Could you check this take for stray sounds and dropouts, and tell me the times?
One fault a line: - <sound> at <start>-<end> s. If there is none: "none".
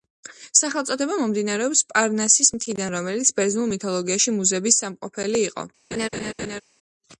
- laugh at 5.9-6.6 s